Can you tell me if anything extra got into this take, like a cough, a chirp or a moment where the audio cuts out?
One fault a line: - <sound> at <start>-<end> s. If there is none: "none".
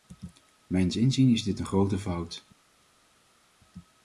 none